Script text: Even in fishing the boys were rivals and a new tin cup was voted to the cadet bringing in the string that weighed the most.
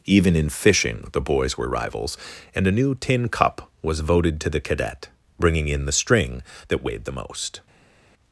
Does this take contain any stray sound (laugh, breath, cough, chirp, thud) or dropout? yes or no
no